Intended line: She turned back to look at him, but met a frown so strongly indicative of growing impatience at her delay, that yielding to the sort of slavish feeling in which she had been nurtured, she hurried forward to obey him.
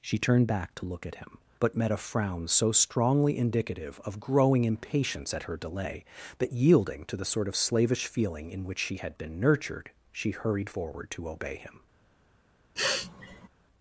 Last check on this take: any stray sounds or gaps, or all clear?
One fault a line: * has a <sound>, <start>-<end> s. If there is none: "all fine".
* has a sniff, 12.8-13.5 s